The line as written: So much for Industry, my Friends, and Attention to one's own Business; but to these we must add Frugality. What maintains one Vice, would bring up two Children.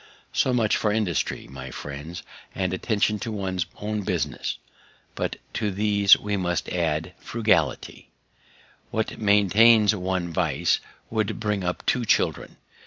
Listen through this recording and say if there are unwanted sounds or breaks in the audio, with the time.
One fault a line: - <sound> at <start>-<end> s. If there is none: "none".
none